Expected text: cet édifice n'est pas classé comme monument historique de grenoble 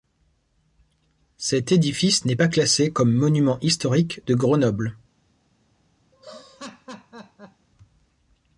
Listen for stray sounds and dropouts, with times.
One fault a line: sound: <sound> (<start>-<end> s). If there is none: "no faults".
sound: laugh (6.1-7.7 s)